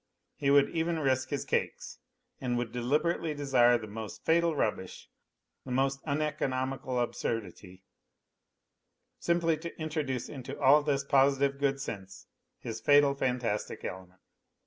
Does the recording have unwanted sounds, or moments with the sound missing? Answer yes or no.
no